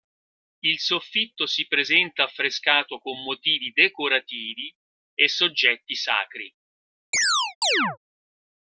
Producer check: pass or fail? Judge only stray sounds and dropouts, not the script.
fail